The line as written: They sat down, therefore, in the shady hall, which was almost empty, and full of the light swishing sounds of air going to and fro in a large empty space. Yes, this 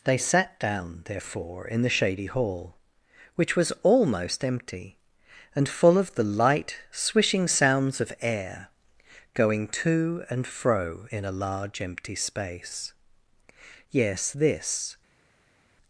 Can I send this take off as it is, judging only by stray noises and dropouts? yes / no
yes